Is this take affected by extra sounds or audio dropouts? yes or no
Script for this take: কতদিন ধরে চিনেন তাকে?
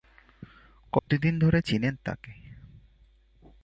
yes